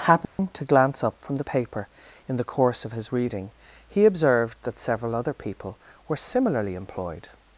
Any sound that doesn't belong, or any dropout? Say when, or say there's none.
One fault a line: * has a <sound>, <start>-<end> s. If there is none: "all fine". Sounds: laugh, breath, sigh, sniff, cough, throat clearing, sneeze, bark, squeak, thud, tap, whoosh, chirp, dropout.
* has a dropout, 0.3-0.4 s